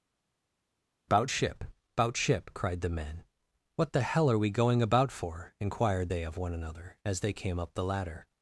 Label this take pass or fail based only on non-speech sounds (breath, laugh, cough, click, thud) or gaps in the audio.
pass